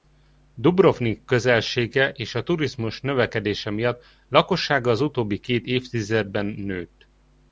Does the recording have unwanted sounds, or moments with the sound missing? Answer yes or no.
no